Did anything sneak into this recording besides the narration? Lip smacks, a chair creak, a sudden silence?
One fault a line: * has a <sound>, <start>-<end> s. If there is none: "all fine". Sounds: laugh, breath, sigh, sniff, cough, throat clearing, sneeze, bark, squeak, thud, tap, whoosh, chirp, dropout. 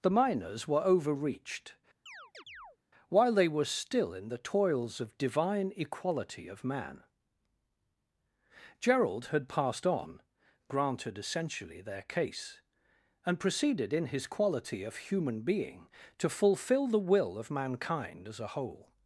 * has a chirp, 2.1-2.8 s